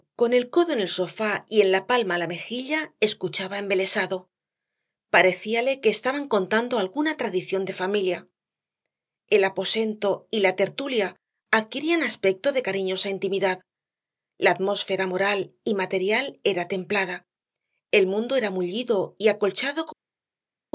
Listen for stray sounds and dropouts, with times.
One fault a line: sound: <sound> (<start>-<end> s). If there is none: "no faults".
no faults